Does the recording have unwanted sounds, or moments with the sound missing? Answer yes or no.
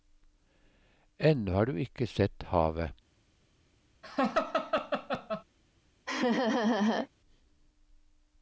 yes